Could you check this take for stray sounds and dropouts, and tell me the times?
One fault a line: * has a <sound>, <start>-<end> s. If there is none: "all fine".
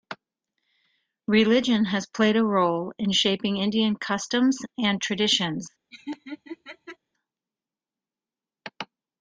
* has a laugh, 5.9-7.0 s